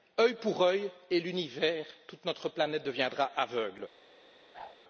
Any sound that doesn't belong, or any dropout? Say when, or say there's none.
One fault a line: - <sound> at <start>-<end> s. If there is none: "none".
- whoosh at 4.5-4.8 s